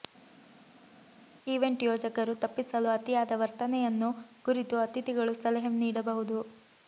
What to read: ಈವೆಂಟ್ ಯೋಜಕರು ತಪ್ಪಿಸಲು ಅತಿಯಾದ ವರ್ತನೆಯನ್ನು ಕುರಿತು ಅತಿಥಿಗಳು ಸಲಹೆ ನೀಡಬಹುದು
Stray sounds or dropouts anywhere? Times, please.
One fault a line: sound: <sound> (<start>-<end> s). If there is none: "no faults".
no faults